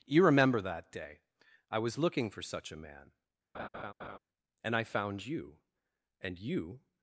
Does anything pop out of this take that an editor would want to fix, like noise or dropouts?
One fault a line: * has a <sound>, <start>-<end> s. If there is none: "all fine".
* has a laugh, 3.5-4.2 s